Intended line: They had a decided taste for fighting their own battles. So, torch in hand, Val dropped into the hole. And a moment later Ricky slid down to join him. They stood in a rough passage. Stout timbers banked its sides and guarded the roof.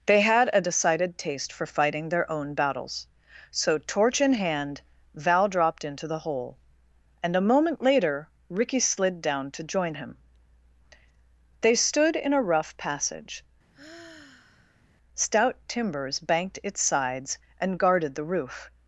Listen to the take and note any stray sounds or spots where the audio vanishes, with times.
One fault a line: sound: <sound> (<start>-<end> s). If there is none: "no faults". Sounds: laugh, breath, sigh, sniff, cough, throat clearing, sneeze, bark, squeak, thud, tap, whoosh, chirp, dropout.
sound: sigh (13.7-14.9 s)